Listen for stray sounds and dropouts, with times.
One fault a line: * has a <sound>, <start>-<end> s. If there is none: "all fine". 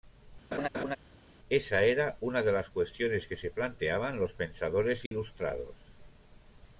* has a laugh, 0.5-1.0 s
* has a dropout, 5.1-5.1 s